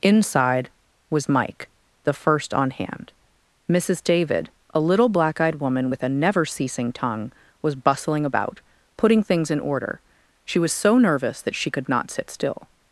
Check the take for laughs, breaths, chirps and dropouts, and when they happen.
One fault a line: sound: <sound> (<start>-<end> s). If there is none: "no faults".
no faults